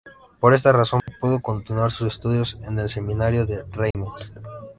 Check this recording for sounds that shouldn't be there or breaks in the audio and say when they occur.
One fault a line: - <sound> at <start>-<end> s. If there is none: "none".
- dropout at 1.0-1.1 s
- dropout at 3.9-3.9 s